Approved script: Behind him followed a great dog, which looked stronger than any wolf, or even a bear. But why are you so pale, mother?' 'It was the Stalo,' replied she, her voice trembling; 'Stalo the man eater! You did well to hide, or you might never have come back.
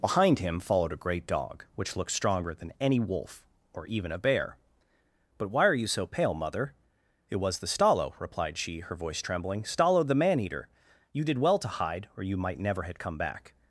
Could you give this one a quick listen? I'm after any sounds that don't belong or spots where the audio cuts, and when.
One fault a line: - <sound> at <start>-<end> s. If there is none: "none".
none